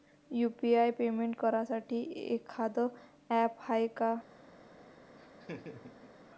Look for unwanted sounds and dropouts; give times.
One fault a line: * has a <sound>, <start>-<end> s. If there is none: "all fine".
* has a laugh, 5.2-6.1 s